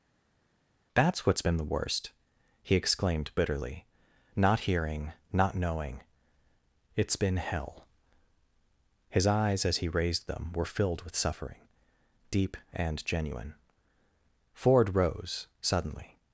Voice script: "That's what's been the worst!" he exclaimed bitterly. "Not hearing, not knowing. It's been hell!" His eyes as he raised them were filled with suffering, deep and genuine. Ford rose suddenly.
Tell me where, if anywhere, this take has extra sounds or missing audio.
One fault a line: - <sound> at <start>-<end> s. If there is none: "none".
none